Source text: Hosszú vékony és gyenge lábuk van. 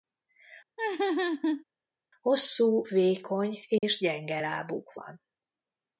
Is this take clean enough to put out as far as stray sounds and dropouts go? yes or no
no